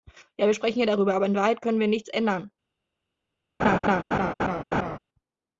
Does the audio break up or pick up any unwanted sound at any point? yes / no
yes